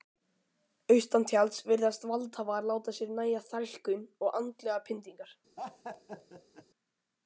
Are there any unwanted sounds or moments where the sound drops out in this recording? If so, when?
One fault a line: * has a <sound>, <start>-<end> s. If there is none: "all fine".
* has a laugh, 5.6-6.7 s